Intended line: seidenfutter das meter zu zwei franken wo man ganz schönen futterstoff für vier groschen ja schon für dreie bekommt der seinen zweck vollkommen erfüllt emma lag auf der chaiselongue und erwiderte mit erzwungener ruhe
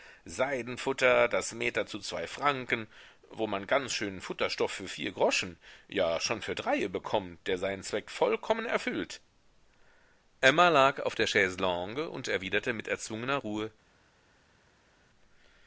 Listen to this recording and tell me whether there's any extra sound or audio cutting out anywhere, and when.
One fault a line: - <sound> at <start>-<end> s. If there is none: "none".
none